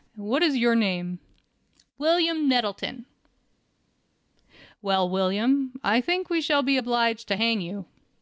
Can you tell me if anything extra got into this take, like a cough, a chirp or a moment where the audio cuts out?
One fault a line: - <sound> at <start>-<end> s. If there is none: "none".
none